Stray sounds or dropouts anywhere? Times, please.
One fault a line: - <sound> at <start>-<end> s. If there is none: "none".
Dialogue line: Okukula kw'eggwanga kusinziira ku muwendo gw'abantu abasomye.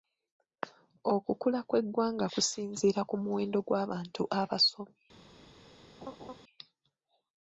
- laugh at 6.0-6.4 s